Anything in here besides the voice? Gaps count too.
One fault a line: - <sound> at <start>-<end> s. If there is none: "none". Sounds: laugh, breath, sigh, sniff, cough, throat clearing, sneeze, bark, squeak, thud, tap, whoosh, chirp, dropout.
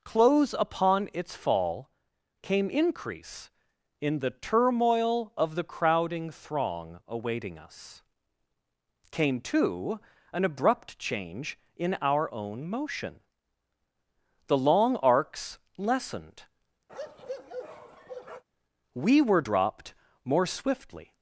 - bark at 16.9-18.4 s